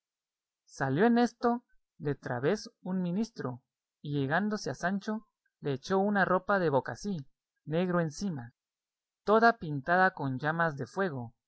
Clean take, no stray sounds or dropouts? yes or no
yes